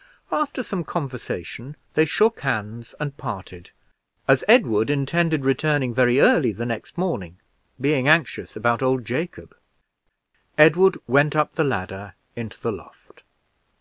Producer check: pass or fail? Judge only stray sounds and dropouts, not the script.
pass